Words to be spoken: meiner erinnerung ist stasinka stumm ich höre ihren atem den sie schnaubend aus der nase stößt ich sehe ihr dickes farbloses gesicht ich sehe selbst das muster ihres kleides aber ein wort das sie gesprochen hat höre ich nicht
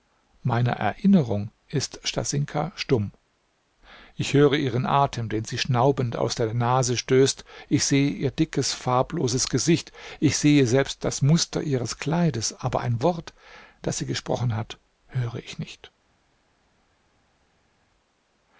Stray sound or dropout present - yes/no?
no